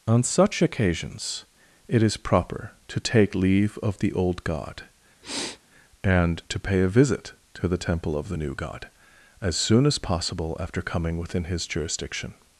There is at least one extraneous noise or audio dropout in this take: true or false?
true